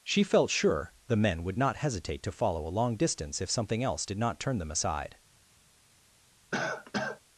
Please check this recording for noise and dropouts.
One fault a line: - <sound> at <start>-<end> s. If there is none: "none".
- cough at 6.5-7.2 s